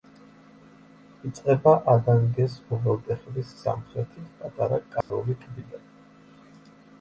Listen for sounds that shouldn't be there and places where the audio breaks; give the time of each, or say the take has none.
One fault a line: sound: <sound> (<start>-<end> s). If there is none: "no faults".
sound: dropout (5.0-5.1 s)